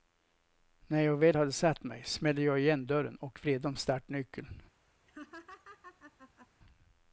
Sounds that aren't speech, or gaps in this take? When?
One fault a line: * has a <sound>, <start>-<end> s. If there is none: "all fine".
* has a laugh, 5.1-6.5 s